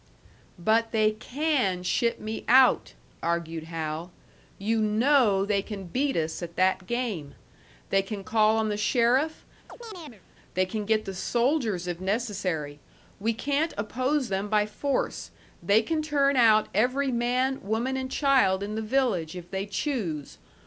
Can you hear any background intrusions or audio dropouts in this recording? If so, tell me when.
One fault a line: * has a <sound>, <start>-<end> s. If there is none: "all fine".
* has a chirp, 9.7-10.2 s